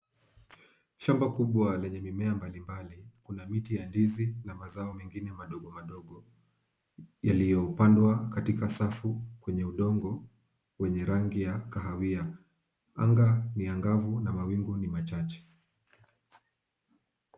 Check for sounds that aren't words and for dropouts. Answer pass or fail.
pass